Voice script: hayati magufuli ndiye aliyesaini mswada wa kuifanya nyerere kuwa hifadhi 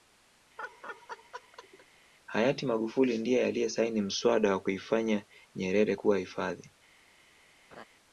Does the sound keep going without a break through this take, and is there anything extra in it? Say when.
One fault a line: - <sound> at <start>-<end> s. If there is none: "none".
- laugh at 0.6-1.9 s
- laugh at 7.7-7.8 s